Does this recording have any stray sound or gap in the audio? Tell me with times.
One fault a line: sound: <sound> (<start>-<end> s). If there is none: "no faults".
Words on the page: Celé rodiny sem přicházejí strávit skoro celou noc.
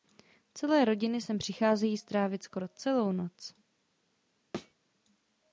sound: thud (4.5-4.7 s)